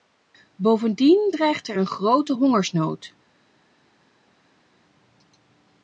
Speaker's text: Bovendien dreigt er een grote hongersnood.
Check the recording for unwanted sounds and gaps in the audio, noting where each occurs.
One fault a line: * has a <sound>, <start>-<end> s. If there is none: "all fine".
all fine